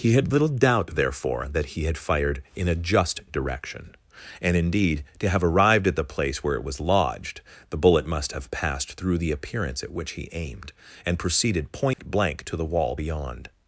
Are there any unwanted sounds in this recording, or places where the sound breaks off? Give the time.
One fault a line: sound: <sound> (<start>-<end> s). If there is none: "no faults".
sound: dropout (11.9-12.0 s)